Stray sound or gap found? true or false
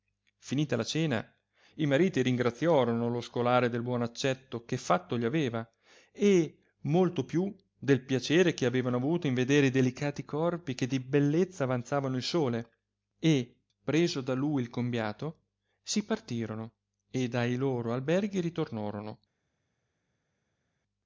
false